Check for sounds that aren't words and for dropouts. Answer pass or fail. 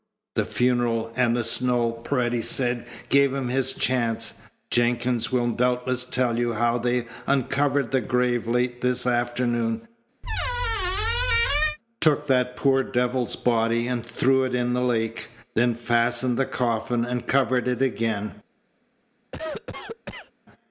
fail